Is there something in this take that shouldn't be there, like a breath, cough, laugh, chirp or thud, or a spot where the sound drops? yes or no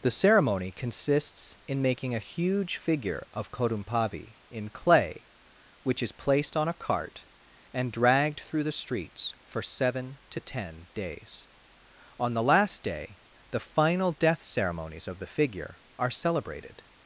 no